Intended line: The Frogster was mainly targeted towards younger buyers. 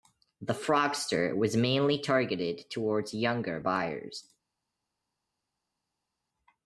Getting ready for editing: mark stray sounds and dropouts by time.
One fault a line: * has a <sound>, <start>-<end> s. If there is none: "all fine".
all fine